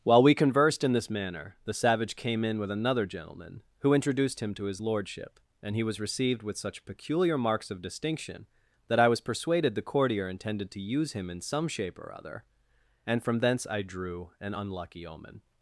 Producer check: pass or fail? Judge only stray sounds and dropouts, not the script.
pass